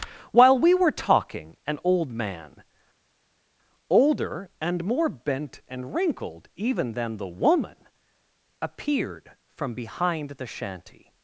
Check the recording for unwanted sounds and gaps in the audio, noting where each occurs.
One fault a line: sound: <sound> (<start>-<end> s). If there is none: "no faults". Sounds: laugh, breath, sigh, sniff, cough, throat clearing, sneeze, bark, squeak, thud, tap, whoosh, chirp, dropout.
no faults